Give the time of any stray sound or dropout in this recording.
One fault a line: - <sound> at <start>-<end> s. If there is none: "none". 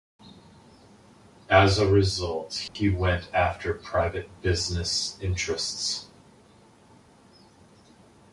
- dropout at 2.7-2.8 s